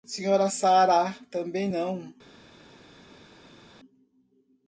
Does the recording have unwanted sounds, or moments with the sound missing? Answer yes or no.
no